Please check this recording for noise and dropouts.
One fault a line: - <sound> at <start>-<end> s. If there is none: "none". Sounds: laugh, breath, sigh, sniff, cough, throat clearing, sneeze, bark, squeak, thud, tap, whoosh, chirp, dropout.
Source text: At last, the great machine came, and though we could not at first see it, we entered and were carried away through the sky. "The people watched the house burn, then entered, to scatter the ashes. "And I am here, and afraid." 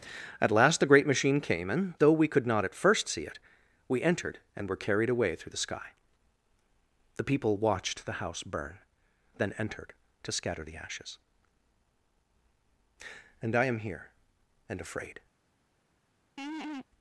- laugh at 16.4-16.9 s